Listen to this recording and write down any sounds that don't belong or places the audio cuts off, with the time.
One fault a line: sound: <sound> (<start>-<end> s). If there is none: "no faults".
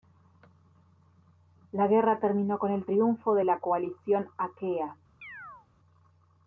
sound: chirp (5.2-5.7 s)